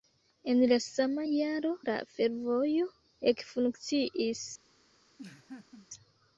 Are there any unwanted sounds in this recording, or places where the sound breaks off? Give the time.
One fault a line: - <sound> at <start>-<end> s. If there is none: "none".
- laugh at 5.2-5.9 s